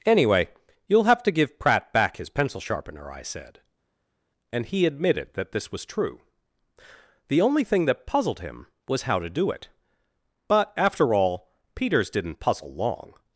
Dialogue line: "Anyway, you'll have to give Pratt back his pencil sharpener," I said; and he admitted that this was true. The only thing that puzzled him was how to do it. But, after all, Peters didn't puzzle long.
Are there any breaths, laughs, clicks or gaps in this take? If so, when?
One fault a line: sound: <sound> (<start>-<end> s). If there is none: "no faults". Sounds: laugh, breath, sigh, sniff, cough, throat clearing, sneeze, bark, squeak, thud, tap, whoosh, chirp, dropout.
no faults